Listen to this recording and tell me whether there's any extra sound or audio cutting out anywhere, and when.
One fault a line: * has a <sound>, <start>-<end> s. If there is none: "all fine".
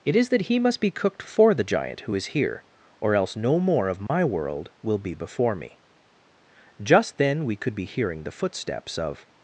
* has a dropout, 4.1-4.1 s